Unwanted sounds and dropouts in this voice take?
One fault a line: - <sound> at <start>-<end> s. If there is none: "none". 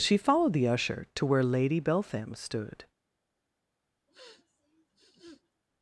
- sniff at 4.1-5.6 s